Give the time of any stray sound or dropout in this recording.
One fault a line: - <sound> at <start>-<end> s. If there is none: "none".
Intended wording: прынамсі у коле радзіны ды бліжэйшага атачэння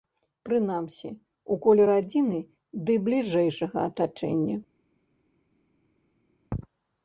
none